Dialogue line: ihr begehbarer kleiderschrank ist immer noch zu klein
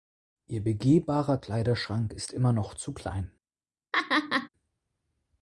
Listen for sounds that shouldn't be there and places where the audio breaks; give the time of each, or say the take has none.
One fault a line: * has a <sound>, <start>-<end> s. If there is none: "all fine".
* has a laugh, 3.9-4.5 s